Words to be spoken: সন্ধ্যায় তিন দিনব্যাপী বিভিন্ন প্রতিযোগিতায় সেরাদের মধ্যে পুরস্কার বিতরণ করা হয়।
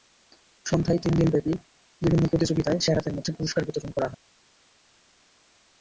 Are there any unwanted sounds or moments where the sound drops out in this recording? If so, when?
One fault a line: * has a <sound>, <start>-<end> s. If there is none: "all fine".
all fine